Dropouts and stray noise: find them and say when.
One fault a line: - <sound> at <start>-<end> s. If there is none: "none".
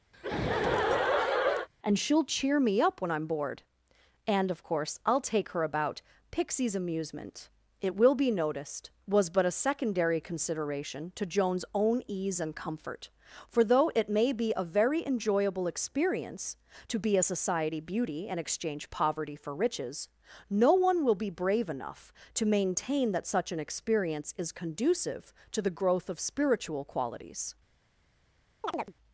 - laugh at 0.1-1.7 s
- chirp at 28.6-28.9 s